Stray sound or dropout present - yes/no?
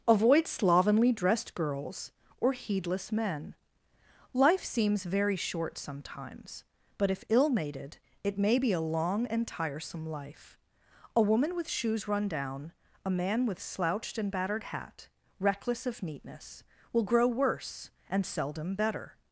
no